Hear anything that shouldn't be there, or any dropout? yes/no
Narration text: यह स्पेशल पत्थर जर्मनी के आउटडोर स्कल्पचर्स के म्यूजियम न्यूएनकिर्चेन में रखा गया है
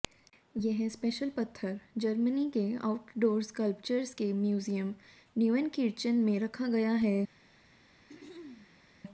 yes